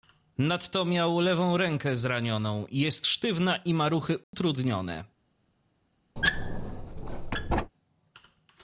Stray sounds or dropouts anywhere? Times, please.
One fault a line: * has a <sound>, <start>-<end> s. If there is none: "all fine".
* has a dropout, 4.2-4.3 s
* has a squeak, 6.2-7.7 s